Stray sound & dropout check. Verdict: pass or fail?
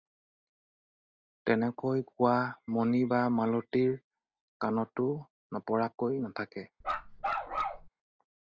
fail